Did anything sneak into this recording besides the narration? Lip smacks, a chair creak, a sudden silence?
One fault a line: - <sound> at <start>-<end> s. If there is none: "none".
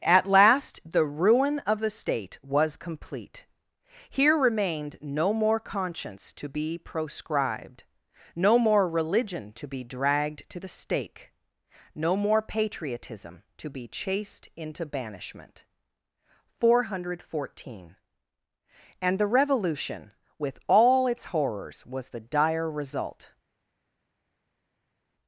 none